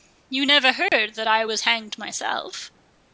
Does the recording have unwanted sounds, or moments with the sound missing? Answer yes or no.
yes